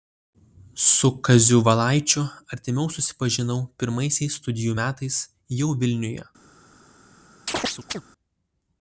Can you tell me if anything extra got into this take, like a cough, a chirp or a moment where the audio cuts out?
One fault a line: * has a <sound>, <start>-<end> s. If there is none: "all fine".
* has a chirp, 7.5-8.0 s